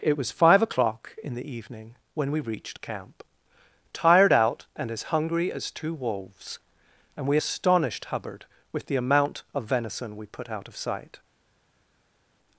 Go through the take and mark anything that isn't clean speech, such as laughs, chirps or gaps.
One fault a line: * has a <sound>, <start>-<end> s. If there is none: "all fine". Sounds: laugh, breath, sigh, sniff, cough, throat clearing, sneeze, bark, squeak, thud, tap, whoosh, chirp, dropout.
all fine